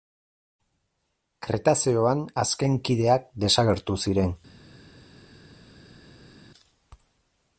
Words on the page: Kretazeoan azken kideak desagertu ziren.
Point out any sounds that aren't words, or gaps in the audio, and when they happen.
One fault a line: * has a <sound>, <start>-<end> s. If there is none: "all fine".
all fine